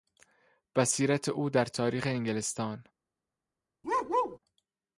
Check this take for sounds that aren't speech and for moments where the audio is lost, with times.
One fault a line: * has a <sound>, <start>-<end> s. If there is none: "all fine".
* has a bark, 3.8-4.4 s